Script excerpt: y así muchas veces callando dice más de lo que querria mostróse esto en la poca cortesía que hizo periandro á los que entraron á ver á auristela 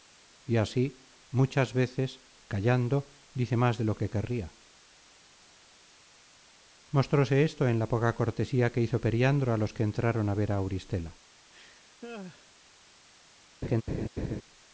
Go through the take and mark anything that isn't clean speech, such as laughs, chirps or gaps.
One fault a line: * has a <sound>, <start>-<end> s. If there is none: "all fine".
* has a laugh, 11.5-12.5 s
* has a laugh, 13.6-14.4 s